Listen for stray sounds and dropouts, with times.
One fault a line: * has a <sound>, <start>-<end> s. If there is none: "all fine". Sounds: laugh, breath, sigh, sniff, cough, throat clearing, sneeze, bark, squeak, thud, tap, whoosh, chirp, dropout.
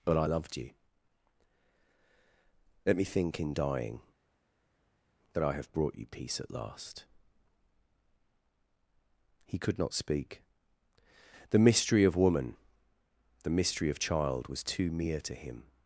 all fine